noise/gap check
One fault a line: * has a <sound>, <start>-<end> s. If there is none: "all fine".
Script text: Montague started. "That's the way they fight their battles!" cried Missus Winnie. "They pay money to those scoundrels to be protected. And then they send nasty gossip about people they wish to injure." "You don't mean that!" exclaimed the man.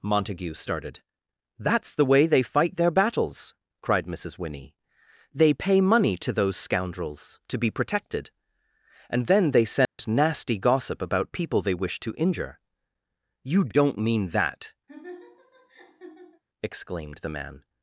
* has a dropout, 9.9-10.0 s
* has a laugh, 14.9-16.4 s